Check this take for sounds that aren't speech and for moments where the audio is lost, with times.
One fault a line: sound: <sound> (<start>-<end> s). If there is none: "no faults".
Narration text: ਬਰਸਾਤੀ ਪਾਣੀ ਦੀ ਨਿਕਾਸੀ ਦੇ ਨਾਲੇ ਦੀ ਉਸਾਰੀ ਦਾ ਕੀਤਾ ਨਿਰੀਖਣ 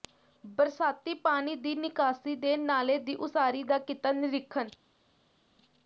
no faults